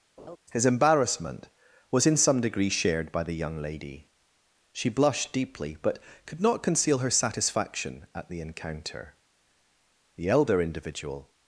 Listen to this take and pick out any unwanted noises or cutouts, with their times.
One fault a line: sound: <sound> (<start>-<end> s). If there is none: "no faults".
sound: laugh (0.2-0.4 s)